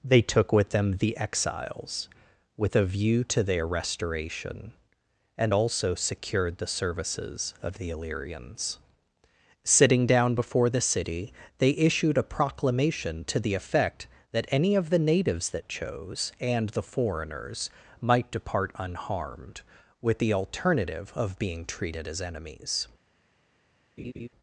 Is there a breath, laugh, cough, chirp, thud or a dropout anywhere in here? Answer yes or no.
yes